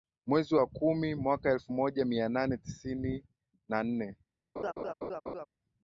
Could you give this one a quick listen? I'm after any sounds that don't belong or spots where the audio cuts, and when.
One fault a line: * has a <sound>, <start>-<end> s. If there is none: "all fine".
* has a laugh, 4.6-5.5 s